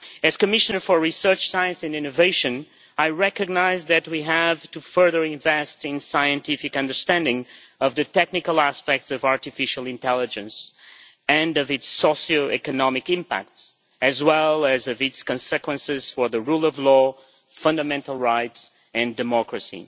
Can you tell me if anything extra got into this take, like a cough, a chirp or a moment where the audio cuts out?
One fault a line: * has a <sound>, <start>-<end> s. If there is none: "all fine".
all fine